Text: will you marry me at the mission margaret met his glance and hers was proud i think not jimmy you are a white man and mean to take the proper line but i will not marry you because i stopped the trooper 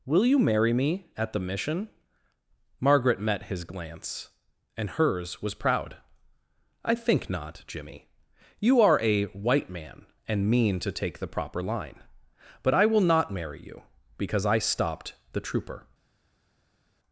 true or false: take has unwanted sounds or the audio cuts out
false